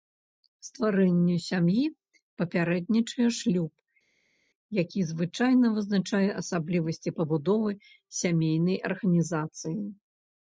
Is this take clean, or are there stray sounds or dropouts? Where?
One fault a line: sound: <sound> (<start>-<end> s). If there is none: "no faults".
no faults